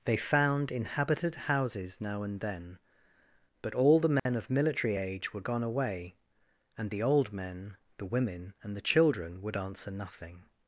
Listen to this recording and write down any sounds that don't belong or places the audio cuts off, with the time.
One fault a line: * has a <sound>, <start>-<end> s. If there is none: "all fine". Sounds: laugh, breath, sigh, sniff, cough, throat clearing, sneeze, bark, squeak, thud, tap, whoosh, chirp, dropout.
* has a dropout, 4.2-4.3 s